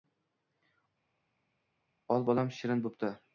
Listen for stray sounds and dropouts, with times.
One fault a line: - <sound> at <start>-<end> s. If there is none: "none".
none